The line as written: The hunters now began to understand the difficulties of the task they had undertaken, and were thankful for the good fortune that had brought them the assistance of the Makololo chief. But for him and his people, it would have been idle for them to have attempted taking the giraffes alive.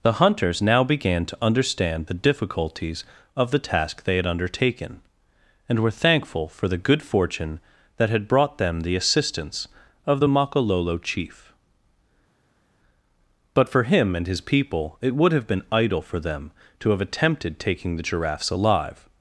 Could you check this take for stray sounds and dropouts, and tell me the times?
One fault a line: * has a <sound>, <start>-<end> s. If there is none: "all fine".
all fine